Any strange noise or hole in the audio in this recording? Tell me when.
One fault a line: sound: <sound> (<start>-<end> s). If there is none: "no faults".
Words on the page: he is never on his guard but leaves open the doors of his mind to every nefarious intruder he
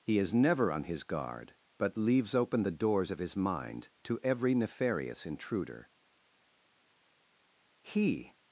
no faults